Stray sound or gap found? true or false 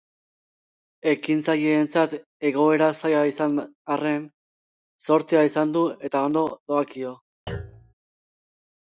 true